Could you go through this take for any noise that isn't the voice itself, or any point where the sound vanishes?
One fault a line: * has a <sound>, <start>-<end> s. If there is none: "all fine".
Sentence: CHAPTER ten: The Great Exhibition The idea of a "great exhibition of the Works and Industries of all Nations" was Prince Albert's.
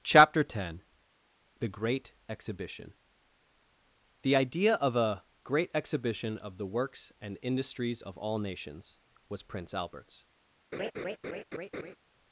* has a laugh, 10.7-12.0 s